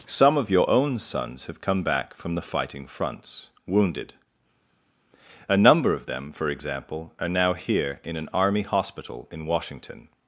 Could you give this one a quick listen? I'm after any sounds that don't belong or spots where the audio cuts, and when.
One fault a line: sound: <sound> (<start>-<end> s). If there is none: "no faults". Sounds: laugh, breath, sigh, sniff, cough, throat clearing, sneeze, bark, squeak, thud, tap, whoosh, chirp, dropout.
no faults